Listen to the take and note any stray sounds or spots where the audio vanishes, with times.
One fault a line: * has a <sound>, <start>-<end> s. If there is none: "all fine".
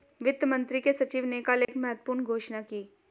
* has a dropout, 1.6-1.7 s